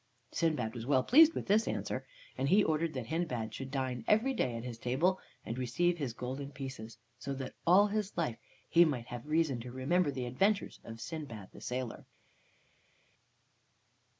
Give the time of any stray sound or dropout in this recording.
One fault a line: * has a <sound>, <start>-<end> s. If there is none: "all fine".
all fine